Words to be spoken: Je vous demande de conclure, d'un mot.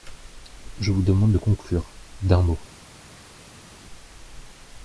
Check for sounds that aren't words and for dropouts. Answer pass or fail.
pass